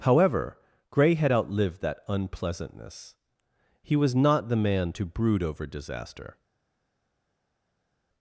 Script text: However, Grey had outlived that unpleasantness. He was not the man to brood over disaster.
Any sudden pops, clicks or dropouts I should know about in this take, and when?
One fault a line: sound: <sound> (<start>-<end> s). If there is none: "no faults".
no faults